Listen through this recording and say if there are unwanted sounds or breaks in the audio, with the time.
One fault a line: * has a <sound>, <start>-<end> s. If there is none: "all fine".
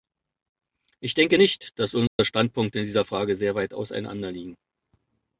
* has a dropout, 2.1-2.2 s